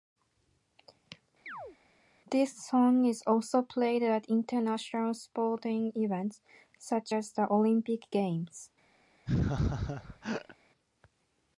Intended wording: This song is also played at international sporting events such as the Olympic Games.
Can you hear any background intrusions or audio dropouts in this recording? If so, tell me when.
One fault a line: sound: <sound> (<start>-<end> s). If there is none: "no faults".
sound: chirp (1.5-1.8 s)
sound: laugh (9.3-10.6 s)